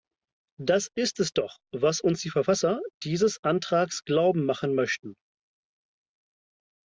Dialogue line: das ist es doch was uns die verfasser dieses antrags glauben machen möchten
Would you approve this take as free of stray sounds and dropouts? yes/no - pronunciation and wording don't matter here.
yes